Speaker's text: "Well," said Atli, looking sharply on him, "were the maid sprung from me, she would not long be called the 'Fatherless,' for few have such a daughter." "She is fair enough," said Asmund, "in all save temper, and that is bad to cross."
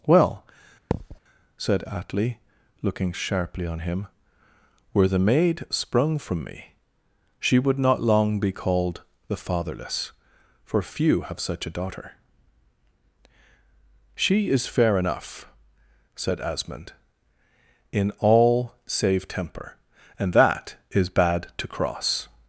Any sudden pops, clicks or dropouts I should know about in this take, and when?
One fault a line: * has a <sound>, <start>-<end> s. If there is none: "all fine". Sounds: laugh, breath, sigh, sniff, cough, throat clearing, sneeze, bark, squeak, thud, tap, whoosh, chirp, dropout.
* has a thud, 0.9-1.2 s